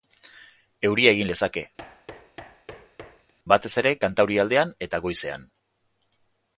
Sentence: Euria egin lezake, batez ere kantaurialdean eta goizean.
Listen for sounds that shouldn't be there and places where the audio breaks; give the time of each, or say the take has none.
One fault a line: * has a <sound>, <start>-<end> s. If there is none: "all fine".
* has a thud, 1.8-3.3 s